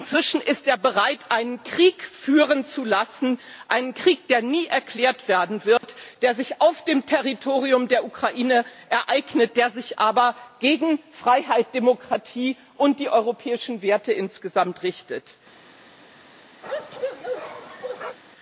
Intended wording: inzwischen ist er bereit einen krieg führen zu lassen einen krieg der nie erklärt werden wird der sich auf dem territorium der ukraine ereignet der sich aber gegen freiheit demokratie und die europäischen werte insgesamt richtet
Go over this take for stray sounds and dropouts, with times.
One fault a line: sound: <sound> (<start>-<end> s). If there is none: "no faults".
sound: dropout (5.8-5.8 s)
sound: bark (16.6-18.2 s)